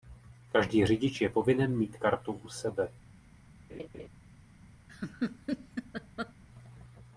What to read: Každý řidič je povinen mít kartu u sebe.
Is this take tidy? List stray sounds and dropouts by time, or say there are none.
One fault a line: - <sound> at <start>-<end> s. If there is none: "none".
- laugh at 3.7-4.1 s
- laugh at 4.9-6.3 s